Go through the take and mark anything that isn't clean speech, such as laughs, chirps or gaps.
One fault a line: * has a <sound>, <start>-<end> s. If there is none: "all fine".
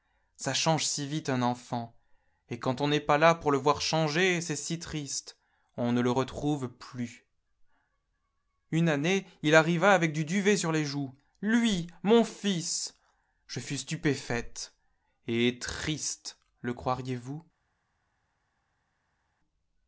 all fine